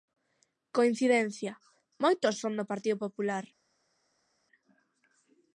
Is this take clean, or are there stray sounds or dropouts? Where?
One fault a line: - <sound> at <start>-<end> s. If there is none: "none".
none